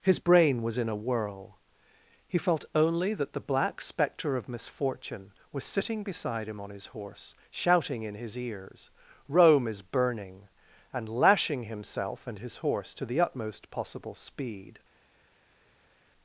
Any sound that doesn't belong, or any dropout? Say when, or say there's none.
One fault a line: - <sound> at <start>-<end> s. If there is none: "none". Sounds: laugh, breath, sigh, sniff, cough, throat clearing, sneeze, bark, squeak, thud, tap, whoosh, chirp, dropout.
none